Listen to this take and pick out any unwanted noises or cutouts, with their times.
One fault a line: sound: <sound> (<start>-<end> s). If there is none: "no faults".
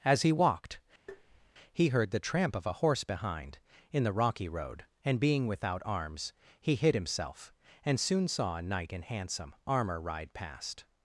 sound: tap (1.1-1.5 s)